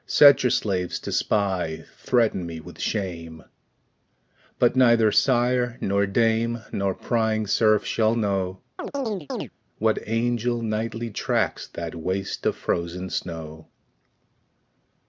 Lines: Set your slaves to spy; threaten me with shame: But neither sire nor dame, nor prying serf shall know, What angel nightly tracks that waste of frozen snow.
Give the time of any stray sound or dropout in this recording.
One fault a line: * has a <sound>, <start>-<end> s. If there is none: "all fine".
* has a chirp, 8.8-9.5 s